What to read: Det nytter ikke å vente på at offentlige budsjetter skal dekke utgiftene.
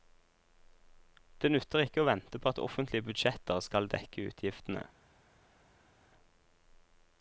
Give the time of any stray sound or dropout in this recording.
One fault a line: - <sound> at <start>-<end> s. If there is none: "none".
none